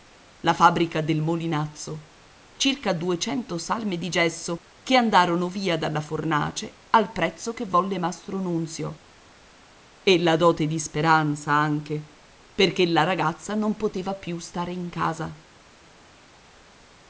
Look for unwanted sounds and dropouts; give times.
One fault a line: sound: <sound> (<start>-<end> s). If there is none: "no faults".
no faults